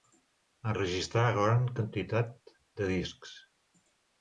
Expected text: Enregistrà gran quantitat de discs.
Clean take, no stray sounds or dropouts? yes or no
yes